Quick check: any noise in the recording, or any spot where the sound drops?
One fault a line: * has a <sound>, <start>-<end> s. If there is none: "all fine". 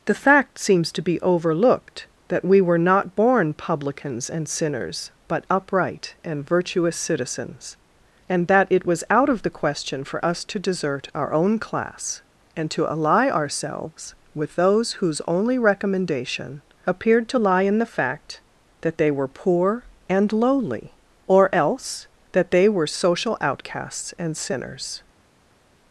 all fine